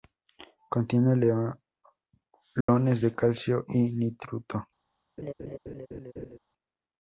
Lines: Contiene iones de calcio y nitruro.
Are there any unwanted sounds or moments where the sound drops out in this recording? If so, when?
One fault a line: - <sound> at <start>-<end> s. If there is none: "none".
- dropout at 2.6-2.7 s
- laugh at 5.2-6.4 s